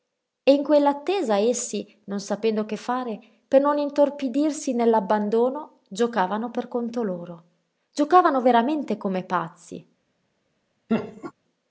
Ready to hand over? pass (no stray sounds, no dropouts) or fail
fail